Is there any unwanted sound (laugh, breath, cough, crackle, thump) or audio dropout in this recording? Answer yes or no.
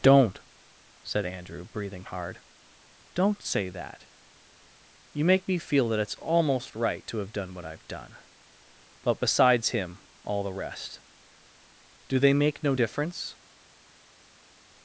no